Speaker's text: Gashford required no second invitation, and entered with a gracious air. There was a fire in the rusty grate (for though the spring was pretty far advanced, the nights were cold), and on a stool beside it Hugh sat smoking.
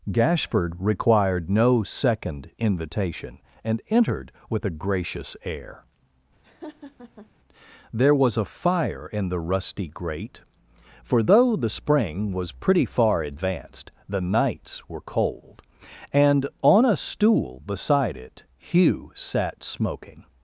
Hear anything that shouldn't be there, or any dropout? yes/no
yes